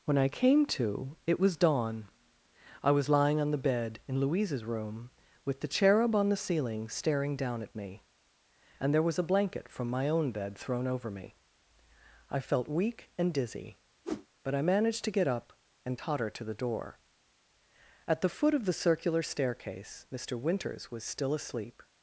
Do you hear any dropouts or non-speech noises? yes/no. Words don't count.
yes